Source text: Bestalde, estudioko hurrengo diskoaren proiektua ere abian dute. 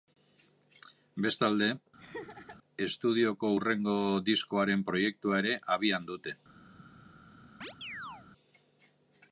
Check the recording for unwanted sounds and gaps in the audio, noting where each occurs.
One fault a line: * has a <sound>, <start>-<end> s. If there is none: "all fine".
* has a laugh, 2.0-2.6 s
* has a chirp, 7.6-8.3 s